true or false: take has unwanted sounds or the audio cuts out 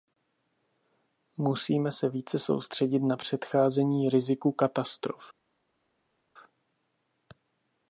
false